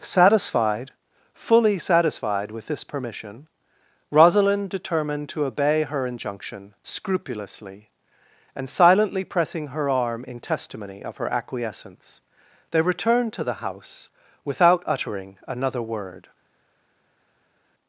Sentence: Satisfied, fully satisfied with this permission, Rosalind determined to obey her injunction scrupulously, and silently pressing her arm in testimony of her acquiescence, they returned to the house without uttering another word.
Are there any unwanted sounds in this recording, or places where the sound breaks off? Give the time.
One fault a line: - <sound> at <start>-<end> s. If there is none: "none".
none